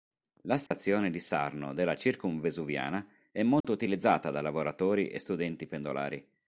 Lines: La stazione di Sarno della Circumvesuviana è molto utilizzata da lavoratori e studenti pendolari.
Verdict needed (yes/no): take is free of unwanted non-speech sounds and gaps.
no